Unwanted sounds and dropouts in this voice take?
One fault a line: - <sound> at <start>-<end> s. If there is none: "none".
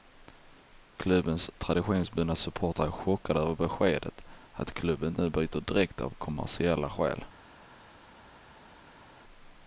none